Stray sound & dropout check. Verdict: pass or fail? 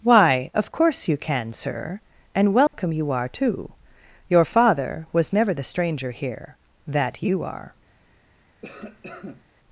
fail